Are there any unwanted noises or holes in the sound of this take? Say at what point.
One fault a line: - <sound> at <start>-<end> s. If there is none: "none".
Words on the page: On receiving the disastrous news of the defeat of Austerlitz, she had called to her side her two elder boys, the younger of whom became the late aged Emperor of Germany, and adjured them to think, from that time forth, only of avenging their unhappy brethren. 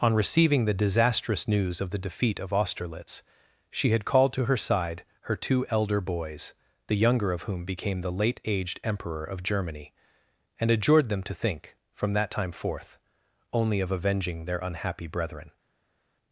none